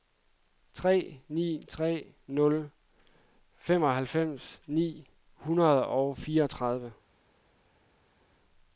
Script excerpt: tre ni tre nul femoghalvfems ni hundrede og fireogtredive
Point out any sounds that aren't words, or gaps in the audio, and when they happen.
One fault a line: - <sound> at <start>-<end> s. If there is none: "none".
none